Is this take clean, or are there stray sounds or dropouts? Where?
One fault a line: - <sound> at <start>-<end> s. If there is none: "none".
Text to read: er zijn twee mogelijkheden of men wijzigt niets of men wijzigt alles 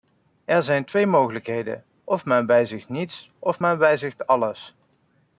none